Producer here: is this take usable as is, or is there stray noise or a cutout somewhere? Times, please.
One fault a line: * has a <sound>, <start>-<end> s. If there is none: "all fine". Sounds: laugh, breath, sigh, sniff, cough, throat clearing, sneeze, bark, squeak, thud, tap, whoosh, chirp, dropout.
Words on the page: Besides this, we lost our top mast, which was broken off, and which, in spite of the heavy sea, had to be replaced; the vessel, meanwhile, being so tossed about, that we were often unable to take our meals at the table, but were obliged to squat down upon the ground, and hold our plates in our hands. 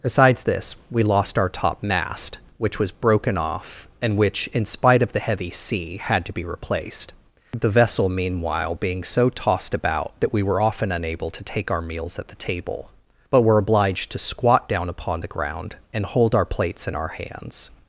all fine